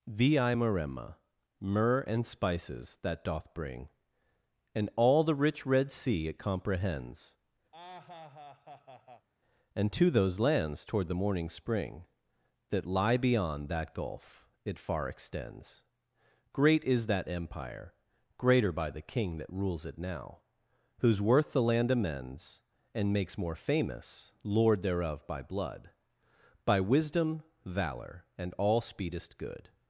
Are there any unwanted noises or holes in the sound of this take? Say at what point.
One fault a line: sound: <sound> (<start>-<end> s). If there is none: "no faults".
sound: laugh (7.7-9.3 s)